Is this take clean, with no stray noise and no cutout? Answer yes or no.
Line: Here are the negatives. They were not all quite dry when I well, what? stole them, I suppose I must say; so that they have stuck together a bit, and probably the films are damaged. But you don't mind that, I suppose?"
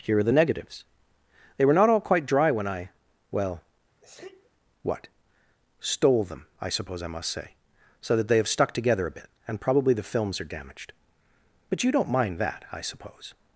no